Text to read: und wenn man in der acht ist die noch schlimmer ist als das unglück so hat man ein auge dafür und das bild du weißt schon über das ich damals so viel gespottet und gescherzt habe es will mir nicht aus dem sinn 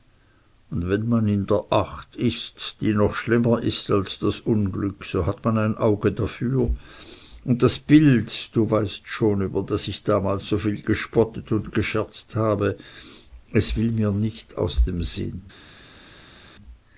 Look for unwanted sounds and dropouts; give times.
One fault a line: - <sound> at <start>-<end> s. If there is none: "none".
none